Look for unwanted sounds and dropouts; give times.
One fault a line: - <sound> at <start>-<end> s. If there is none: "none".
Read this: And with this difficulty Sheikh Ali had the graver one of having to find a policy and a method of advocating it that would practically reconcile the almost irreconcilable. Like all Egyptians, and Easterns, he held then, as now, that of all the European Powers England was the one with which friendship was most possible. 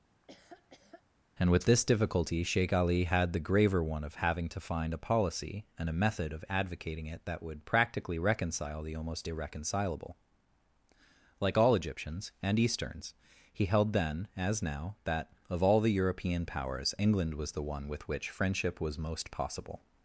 - laugh at 0.1-1.0 s